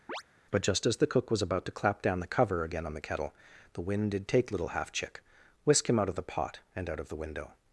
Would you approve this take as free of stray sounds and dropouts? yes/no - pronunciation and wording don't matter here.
no